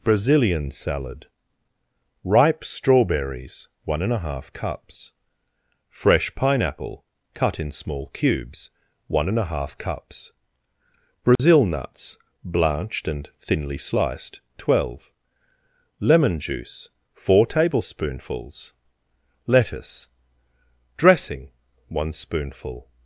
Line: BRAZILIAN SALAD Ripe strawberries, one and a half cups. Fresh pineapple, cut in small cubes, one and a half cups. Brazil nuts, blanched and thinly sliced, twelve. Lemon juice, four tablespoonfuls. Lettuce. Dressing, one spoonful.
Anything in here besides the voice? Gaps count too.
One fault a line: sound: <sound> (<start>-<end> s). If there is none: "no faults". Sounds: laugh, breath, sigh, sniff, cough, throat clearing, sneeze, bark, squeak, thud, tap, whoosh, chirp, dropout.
sound: dropout (11.4-11.4 s)